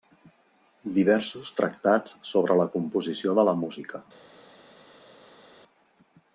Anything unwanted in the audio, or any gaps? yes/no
no